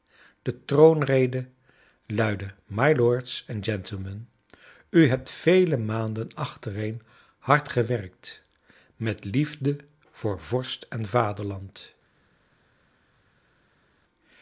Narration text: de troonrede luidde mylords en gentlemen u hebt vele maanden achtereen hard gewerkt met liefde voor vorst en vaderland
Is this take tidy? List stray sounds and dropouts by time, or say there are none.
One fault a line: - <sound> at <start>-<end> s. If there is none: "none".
none